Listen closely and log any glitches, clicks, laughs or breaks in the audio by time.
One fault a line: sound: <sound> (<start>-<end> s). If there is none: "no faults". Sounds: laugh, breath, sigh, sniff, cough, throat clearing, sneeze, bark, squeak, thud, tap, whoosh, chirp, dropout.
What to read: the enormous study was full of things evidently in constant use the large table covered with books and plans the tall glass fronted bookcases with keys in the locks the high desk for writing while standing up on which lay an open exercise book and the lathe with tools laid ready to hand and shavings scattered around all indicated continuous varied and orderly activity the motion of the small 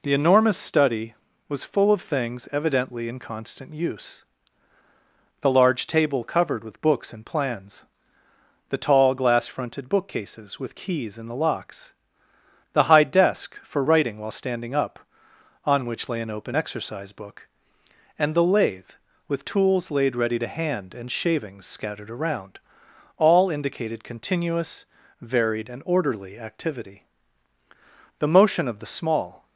no faults